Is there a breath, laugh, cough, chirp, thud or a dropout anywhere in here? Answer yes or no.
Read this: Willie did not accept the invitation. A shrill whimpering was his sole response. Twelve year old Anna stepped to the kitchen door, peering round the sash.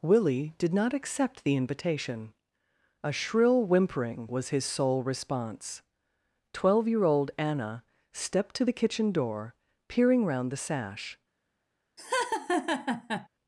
yes